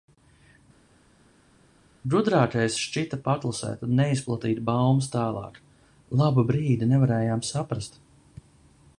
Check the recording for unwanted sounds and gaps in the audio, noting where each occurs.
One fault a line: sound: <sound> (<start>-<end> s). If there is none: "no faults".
no faults